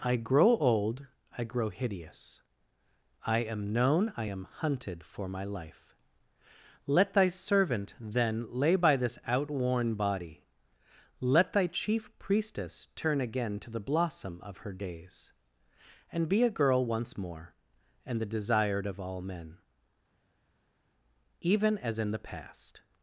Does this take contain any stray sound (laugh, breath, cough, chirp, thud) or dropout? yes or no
no